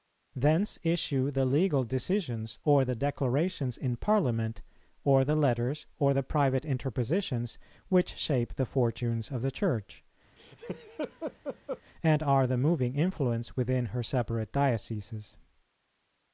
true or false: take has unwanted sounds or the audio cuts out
true